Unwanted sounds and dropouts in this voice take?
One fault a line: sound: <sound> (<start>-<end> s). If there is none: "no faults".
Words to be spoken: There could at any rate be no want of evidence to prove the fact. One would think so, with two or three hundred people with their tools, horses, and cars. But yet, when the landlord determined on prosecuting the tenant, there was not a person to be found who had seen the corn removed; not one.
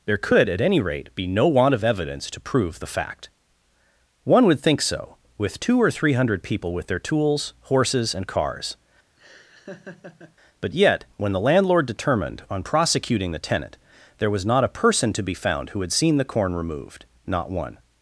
sound: laugh (9.2-10.4 s)